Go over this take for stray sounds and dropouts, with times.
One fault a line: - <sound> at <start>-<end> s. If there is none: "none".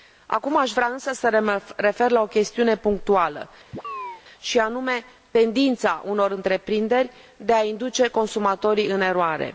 - chirp at 3.7-4.2 s